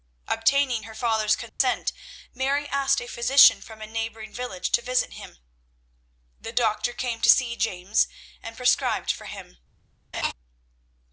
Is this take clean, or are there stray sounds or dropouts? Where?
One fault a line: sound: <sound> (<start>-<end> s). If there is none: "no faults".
sound: dropout (1.5-1.6 s)
sound: laugh (10.1-10.3 s)